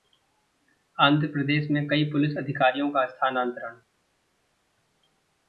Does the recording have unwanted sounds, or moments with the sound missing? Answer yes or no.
no